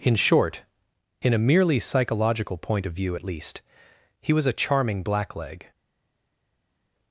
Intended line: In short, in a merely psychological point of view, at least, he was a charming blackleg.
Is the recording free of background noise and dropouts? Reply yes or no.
yes